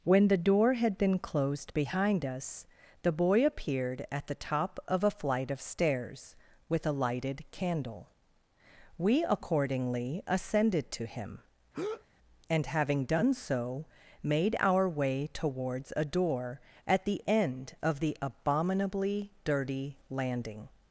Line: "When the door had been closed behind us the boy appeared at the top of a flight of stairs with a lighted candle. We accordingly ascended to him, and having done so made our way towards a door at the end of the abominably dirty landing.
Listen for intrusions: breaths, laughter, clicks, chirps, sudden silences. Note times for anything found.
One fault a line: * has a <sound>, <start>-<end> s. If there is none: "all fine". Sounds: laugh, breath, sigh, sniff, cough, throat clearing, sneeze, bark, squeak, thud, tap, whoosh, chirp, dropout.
* has a breath, 11.7-12.0 s